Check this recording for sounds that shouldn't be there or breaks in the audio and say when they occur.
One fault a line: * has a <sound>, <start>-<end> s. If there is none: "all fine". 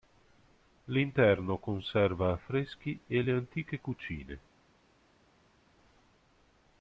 all fine